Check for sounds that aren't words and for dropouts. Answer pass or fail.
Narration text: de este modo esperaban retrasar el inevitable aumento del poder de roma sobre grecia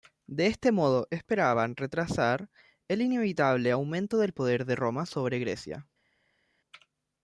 pass